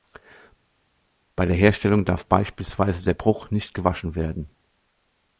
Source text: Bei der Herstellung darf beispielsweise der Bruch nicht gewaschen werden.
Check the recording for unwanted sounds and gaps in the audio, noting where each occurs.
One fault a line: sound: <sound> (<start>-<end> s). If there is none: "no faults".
no faults